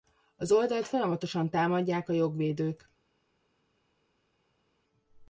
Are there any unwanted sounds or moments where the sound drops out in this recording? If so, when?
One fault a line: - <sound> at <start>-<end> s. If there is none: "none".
none